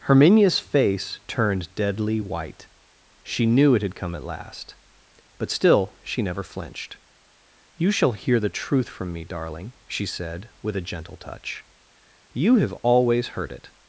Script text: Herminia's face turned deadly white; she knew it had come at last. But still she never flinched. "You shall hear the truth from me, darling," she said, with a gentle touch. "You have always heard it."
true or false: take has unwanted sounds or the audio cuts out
false